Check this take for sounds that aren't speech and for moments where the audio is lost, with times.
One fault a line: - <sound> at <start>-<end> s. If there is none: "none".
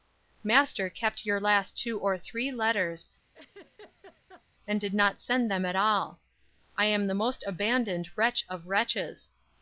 - laugh at 3.3-4.4 s